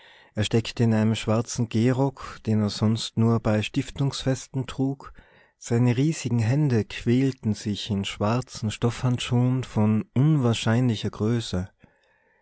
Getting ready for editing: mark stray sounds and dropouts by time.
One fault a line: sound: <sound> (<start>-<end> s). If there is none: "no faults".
no faults